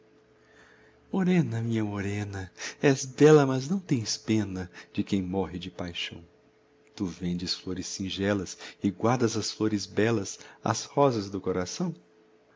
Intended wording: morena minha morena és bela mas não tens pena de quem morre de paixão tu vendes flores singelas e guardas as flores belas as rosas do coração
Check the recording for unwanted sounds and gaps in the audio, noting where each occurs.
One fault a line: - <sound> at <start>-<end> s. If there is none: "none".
none